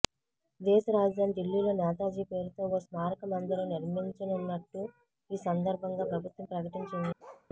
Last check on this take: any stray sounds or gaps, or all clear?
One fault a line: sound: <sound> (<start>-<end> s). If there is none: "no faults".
sound: bark (7.2-7.5 s)